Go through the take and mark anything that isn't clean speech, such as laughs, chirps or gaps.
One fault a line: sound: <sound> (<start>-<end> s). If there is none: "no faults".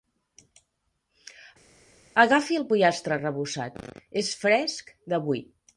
no faults